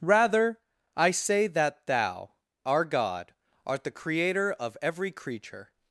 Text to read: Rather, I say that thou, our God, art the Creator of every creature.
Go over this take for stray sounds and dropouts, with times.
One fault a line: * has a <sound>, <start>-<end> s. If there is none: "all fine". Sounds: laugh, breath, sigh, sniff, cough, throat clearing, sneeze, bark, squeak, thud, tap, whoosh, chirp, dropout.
all fine